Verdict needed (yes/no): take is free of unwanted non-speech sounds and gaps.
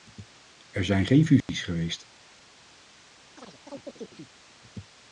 no